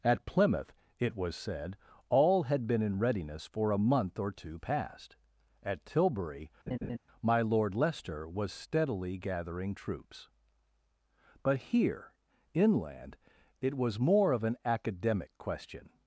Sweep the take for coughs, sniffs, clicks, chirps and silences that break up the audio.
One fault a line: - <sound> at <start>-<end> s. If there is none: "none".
- laugh at 6.7-7.0 s